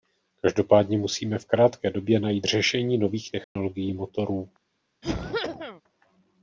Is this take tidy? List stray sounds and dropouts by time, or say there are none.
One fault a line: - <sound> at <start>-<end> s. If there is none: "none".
- dropout at 3.4-3.6 s
- cough at 5.0-5.8 s